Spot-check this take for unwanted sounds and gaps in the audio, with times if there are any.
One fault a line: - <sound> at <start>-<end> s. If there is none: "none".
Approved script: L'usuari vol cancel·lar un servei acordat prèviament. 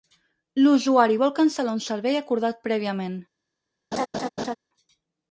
- laugh at 3.9-4.6 s